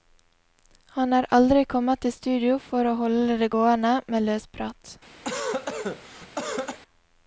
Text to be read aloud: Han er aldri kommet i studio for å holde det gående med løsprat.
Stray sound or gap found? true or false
true